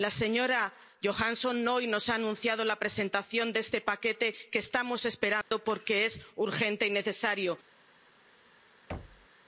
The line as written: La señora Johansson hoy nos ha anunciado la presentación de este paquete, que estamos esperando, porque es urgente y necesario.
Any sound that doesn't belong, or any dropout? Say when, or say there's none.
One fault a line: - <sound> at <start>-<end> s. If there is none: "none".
- dropout at 5.4-5.5 s
- thud at 8.9-9.3 s